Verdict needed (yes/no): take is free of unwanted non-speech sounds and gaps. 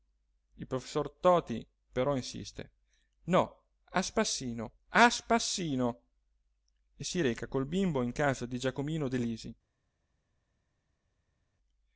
yes